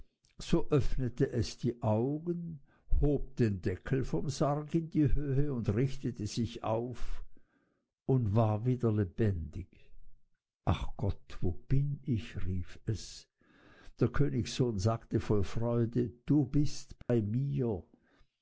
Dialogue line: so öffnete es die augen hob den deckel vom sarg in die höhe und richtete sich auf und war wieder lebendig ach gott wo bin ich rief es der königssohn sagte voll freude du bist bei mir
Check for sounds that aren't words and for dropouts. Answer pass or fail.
fail